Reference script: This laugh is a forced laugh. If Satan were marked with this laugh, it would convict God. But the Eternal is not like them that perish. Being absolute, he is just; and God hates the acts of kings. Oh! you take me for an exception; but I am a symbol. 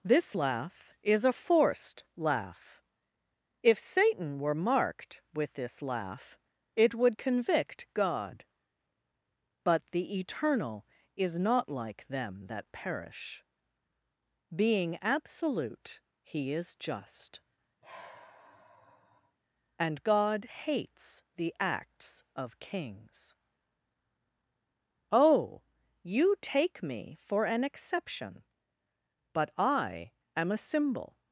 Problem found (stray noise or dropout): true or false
true